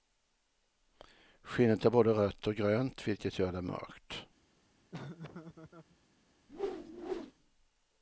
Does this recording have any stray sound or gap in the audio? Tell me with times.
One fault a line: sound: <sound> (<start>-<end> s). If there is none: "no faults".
sound: laugh (4.9-6.0 s)
sound: whoosh (6.5-7.3 s)